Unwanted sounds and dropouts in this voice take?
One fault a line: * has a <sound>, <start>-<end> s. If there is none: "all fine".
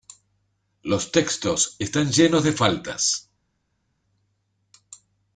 all fine